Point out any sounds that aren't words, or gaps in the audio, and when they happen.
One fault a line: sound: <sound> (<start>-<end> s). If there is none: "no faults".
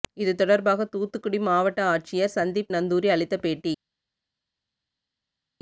no faults